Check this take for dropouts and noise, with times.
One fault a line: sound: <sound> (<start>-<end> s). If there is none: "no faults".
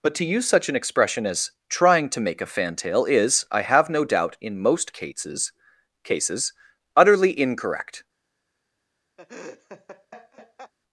sound: laugh (9.2-10.7 s)